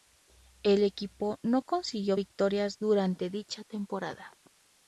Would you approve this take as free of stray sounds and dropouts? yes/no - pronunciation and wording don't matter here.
yes